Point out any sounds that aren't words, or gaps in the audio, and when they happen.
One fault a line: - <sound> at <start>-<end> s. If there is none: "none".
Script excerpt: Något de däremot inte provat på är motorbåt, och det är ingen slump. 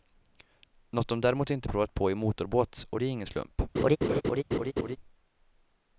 - laugh at 3.7-5.0 s